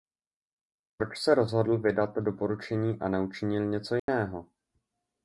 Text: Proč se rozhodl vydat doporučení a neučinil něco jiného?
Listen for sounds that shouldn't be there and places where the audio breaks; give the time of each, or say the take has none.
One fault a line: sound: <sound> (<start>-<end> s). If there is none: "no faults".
sound: dropout (4.0-4.1 s)